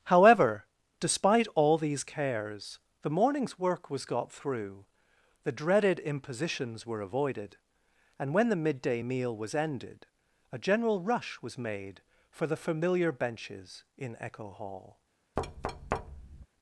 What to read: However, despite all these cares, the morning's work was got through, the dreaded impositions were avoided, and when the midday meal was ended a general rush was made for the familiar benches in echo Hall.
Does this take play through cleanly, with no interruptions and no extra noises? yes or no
no